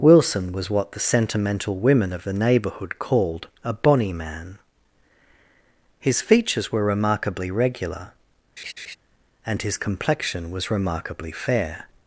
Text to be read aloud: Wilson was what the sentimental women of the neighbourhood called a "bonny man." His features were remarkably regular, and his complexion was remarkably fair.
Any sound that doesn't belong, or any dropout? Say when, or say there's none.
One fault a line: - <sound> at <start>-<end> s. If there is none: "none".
- laugh at 8.6-9.0 s